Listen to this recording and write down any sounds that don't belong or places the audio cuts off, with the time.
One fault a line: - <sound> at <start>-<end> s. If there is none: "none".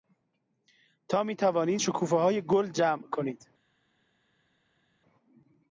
none